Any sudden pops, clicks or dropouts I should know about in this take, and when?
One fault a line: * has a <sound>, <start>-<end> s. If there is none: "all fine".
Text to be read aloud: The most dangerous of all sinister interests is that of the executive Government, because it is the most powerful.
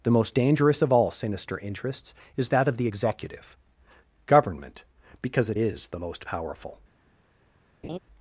* has a laugh, 7.8-8.0 s